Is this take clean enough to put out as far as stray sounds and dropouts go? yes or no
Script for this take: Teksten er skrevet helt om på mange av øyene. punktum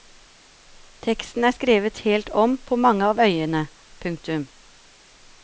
yes